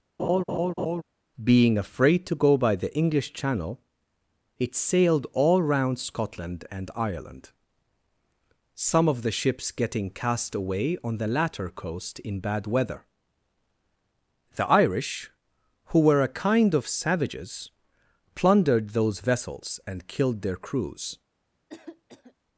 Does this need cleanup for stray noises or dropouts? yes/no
yes